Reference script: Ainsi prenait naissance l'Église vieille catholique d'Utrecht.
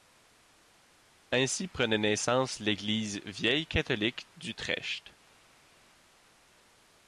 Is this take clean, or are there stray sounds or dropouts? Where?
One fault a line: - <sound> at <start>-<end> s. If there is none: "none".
none